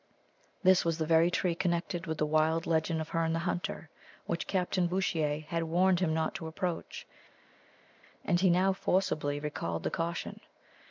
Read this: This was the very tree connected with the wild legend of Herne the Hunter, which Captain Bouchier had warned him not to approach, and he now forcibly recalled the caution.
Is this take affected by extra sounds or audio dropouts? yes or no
no